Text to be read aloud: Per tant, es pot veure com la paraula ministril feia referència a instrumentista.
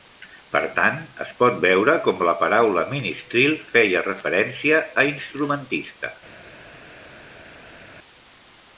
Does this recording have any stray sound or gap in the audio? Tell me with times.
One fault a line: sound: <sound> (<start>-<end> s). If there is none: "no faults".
no faults